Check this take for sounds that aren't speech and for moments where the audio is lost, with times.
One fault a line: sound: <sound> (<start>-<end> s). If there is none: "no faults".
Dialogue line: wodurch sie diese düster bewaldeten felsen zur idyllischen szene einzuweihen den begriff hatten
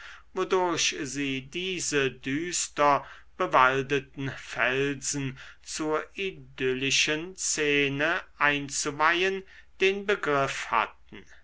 no faults